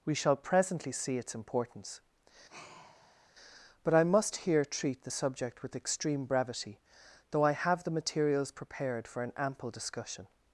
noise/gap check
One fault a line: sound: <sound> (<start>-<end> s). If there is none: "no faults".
sound: sigh (2.5-3.3 s)